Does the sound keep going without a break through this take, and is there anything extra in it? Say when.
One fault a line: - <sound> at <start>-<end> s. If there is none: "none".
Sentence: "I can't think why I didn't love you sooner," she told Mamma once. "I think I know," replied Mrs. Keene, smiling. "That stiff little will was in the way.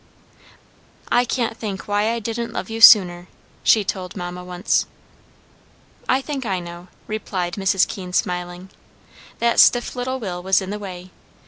none